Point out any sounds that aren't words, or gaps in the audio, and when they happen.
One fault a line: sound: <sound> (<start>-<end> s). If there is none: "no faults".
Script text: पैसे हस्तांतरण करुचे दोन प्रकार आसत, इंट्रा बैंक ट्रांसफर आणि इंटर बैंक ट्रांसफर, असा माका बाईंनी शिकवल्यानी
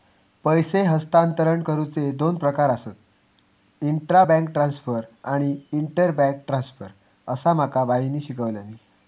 no faults